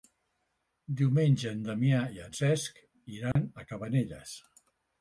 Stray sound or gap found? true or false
true